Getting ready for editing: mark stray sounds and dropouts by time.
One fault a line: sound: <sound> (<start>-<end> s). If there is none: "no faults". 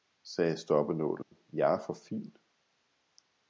sound: dropout (1.2-1.3 s)